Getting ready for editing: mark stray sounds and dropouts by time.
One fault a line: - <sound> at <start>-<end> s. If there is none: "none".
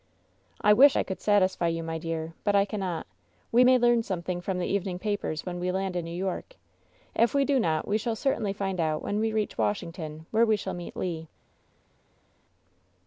none